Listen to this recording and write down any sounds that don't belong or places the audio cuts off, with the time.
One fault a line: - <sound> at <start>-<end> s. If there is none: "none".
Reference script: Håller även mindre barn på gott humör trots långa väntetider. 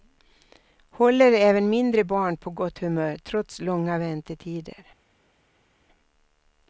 none